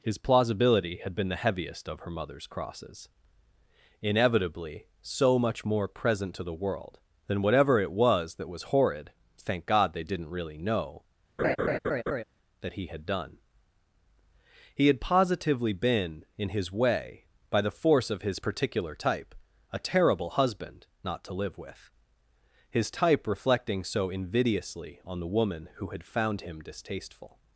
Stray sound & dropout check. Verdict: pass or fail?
fail